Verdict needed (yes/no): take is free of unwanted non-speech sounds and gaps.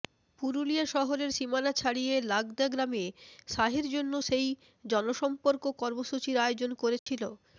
no